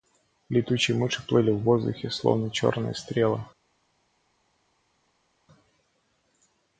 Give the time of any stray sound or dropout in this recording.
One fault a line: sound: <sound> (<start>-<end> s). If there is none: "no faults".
no faults